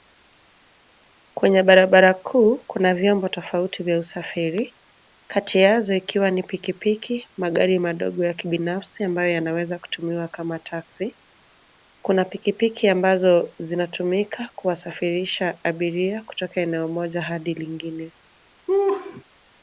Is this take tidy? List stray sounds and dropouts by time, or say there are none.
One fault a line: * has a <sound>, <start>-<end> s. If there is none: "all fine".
* has a laugh, 18.7-19.2 s